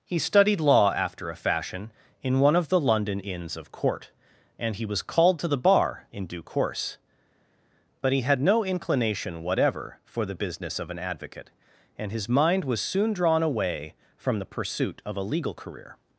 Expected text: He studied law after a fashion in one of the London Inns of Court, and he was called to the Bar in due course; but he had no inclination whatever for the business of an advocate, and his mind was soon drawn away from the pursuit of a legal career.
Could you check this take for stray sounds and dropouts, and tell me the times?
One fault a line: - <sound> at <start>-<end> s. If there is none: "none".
none